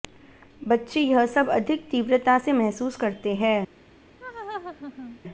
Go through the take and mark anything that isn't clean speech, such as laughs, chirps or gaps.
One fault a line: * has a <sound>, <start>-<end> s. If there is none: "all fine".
* has a laugh, 4.2-5.2 s